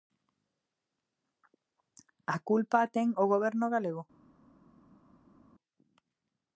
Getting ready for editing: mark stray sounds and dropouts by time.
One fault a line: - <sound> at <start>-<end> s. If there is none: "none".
none